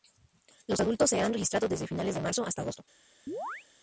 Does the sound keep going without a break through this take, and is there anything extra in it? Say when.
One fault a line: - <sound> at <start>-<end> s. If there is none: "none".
- chirp at 3.3-3.7 s